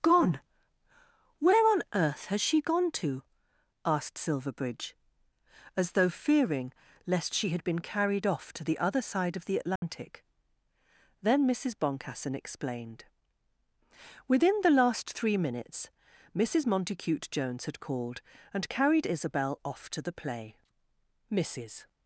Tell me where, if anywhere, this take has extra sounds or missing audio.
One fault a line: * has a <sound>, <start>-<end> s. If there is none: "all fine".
* has a dropout, 9.8-9.8 s